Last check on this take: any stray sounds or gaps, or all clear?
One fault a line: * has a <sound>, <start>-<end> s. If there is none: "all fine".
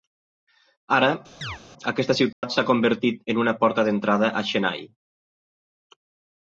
* has a chirp, 1.4-1.6 s
* has a dropout, 2.3-2.4 s